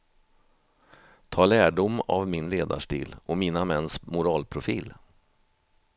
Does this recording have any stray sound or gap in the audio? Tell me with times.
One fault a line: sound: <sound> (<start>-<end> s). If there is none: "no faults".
no faults